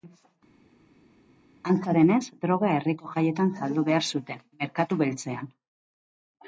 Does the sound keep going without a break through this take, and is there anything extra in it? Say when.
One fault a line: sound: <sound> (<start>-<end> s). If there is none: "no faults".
no faults